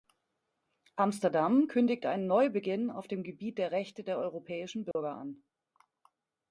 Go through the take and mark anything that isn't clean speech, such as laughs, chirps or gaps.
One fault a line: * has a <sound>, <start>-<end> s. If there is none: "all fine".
* has a dropout, 4.9-5.0 s